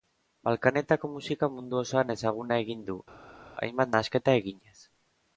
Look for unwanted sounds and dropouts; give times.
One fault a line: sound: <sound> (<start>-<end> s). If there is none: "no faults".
no faults